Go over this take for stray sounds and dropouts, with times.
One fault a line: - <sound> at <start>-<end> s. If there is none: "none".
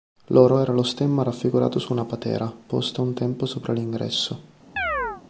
- chirp at 4.8-5.2 s